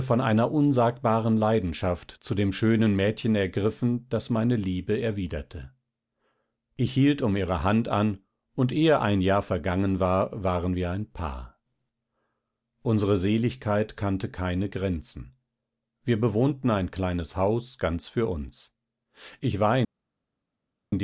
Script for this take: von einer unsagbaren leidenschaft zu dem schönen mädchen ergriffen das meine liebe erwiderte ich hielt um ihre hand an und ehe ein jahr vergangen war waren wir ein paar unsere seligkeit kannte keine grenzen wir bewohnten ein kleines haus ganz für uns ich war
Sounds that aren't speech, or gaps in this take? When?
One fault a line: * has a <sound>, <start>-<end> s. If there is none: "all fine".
all fine